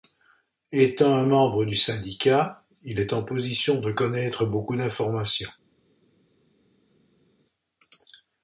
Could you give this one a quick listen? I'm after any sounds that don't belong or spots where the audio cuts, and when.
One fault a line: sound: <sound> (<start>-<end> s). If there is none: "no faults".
no faults